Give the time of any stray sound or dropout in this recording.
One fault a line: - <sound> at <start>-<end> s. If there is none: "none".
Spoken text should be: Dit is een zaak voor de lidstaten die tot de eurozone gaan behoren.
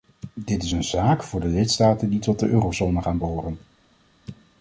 none